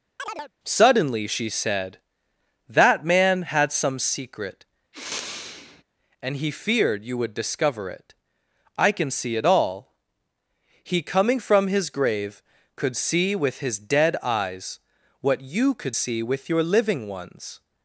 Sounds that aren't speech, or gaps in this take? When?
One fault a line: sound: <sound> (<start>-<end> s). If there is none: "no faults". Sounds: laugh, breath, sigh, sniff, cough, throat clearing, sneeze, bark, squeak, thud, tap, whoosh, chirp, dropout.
sound: chirp (0.2-0.5 s)
sound: sniff (4.9-5.8 s)